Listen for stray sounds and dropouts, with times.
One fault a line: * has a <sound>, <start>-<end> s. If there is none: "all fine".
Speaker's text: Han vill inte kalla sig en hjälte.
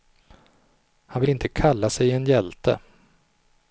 all fine